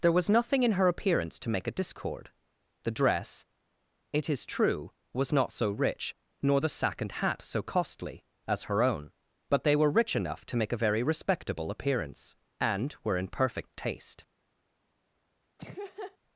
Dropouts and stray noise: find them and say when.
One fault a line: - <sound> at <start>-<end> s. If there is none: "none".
- laugh at 15.6-16.2 s